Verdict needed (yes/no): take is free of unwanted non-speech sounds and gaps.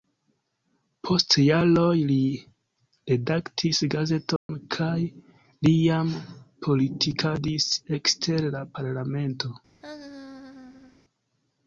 no